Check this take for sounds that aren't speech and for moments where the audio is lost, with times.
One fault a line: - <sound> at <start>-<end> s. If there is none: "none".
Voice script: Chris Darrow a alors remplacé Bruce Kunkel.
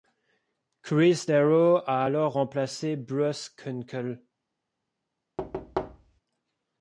- thud at 5.4-6.2 s